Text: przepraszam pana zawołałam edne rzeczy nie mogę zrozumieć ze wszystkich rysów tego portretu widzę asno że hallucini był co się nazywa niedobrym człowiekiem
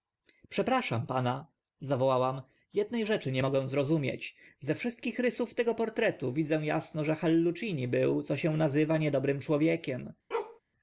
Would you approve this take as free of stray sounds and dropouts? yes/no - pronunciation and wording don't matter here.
no